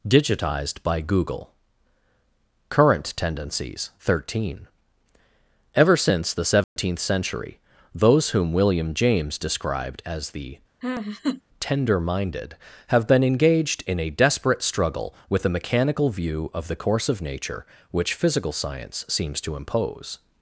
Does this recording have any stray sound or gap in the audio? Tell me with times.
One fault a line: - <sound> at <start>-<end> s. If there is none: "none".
- dropout at 6.6-6.8 s
- laugh at 10.8-11.4 s